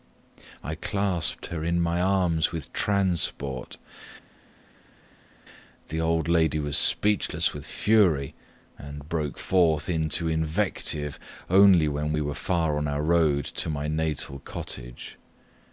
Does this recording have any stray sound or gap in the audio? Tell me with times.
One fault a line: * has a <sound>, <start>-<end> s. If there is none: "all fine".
all fine